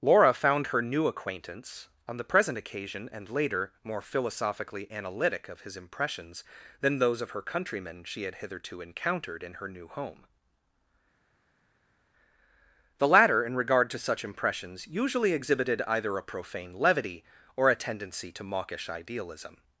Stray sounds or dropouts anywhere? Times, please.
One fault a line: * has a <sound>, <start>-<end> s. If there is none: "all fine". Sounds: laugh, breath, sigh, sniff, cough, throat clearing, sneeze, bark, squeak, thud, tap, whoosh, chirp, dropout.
all fine